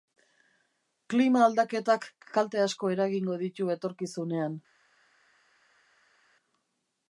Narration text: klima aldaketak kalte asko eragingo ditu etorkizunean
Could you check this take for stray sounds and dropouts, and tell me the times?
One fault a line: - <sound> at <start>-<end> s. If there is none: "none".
none